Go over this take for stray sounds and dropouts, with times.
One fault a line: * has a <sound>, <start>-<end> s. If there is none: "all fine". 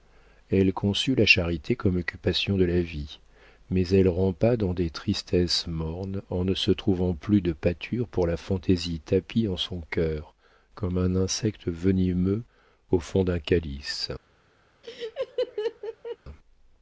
* has a laugh, 14.8-16.2 s